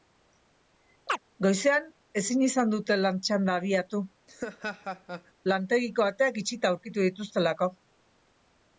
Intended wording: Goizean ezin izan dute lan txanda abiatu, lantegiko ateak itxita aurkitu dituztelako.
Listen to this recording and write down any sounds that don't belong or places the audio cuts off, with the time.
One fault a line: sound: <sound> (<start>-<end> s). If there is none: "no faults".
sound: chirp (1.1-1.2 s)
sound: laugh (4.3-5.3 s)